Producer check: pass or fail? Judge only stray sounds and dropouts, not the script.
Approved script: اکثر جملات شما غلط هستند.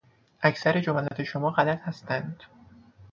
fail